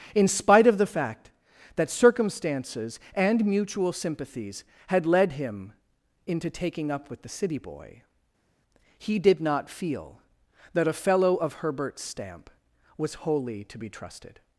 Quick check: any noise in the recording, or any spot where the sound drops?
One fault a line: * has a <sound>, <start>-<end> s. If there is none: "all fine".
all fine